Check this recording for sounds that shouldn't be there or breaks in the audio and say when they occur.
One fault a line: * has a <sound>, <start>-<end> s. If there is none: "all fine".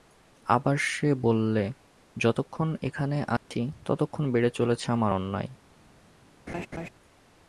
* has a dropout, 3.4-3.5 s
* has a laugh, 6.5-6.9 s